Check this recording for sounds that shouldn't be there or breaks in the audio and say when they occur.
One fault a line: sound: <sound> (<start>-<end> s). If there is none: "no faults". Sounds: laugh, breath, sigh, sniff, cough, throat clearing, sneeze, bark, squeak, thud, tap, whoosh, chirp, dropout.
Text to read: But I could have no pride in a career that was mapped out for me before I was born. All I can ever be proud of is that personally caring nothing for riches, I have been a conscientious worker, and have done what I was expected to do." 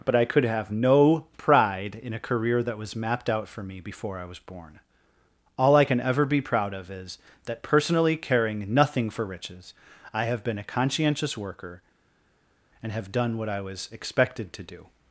no faults